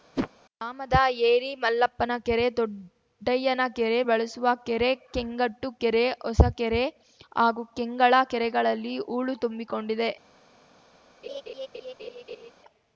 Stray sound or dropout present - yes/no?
yes